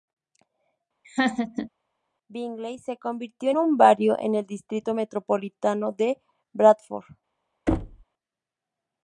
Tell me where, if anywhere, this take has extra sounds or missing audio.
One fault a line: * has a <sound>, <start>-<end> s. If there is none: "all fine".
* has a laugh, 1.0-1.7 s
* has a thud, 7.7-8.0 s